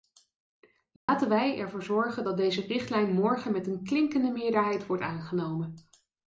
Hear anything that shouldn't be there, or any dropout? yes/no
yes